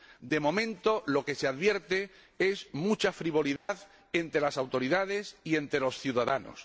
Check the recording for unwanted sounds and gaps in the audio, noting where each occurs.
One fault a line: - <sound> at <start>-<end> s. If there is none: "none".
- dropout at 3.6-3.7 s